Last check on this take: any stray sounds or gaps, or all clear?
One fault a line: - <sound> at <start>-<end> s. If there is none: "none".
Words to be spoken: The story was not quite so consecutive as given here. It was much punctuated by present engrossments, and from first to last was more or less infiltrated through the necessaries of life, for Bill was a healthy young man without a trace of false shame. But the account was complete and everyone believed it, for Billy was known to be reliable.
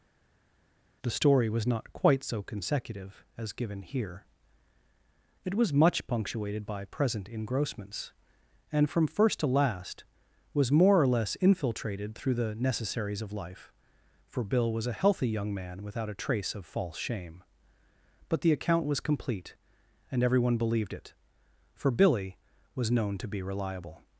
none